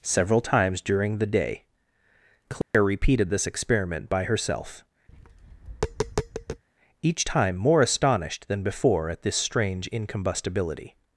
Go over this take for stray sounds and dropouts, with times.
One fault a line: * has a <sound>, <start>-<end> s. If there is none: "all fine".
* has a dropout, 2.6-2.7 s
* has a tap, 5.1-6.6 s